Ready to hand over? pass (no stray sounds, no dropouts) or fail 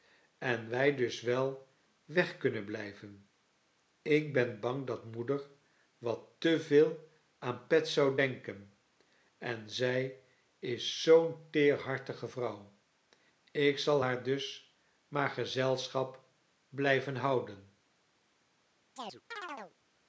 fail